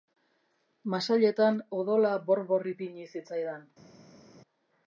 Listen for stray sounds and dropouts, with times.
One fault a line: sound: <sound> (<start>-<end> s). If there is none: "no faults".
no faults